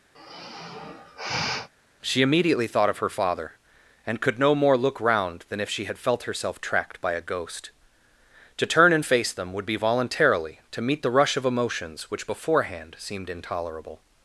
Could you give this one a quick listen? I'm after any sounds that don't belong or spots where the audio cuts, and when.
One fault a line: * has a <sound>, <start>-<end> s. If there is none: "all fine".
* has a sigh, 0.1-1.7 s